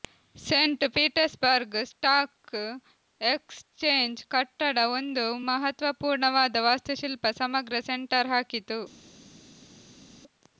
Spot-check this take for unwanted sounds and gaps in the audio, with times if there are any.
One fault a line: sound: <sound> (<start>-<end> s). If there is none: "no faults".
no faults